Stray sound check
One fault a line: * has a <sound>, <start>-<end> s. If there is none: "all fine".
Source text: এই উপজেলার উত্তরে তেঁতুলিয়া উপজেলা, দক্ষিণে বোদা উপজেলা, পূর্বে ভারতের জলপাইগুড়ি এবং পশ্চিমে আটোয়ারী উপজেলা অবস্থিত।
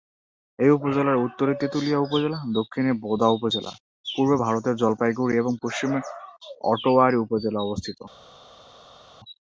all fine